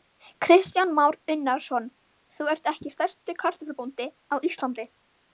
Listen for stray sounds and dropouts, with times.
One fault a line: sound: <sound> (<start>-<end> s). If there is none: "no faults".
no faults